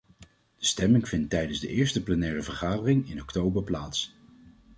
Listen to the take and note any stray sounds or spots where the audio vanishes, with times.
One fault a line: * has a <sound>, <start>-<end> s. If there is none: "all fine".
all fine